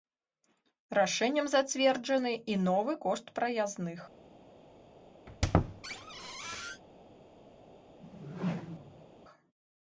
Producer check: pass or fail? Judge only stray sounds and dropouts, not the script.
fail